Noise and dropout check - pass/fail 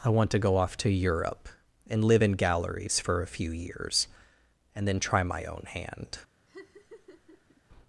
fail